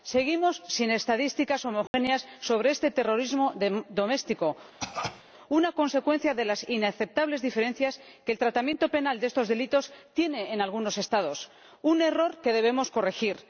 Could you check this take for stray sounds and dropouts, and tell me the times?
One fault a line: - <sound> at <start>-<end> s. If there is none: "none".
- dropout at 1.9-1.9 s
- cough at 4.8-5.2 s